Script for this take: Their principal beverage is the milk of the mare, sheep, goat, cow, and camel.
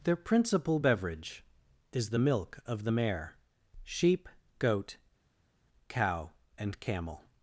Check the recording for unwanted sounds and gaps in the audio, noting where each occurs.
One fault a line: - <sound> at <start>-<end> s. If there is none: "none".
none